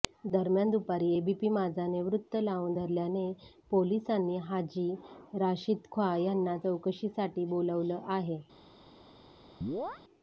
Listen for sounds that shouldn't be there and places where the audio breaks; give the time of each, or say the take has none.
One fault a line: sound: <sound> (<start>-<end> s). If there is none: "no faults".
sound: chirp (9.6-10.0 s)